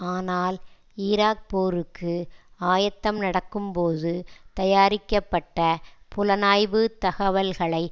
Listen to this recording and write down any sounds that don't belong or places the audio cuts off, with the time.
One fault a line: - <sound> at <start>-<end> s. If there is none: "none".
none